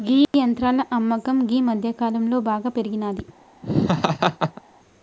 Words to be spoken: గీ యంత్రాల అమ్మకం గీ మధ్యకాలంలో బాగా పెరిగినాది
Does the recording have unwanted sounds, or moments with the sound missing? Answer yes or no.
yes